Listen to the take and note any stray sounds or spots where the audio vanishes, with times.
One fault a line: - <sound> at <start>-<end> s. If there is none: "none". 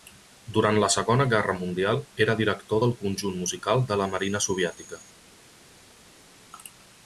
none